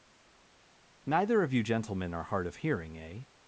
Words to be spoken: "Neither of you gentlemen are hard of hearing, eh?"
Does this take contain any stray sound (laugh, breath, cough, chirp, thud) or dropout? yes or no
no